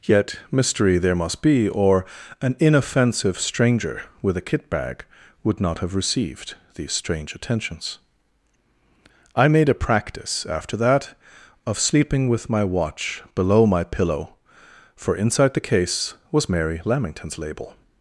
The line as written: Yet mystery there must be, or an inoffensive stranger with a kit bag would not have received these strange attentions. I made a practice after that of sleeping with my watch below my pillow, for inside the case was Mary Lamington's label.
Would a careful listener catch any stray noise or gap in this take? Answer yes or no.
no